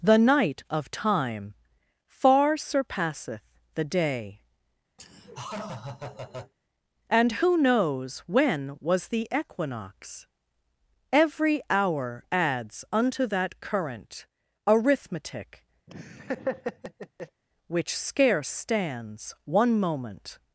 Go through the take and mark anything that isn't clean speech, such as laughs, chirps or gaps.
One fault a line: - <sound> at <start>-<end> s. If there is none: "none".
- laugh at 5.0-6.5 s
- laugh at 15.9-17.4 s